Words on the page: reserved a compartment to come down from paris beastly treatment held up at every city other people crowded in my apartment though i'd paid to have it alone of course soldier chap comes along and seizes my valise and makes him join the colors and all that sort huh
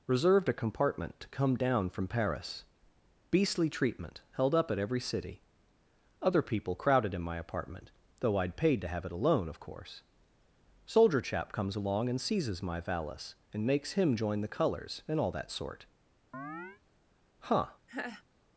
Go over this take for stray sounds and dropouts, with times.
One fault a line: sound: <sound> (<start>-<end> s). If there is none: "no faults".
sound: chirp (16.3-16.8 s)
sound: laugh (17.9-18.2 s)